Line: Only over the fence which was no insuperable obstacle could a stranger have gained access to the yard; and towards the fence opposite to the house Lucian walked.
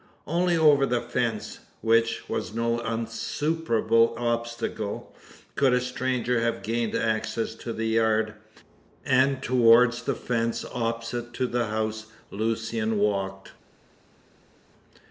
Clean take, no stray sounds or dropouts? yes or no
yes